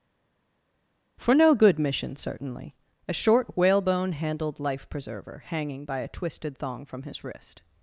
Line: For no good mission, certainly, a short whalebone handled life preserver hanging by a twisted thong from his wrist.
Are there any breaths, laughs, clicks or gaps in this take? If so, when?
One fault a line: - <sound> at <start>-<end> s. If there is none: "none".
none